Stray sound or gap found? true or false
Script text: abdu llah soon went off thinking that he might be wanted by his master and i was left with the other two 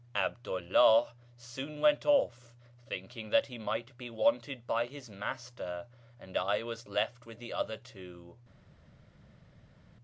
false